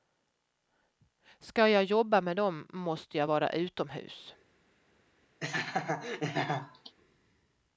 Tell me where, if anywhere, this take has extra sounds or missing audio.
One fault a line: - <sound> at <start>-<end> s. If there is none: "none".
- laugh at 5.4-7.0 s